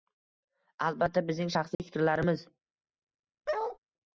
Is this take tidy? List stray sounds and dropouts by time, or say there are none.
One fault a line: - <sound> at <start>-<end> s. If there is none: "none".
- dropout at 1.7-1.8 s
- bark at 3.5-3.8 s